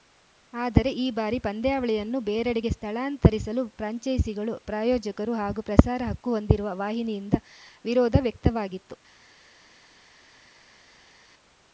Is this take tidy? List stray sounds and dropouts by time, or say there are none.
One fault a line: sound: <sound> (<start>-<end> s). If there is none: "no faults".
no faults